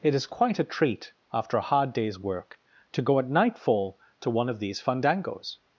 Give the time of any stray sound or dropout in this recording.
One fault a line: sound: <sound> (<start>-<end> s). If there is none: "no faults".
no faults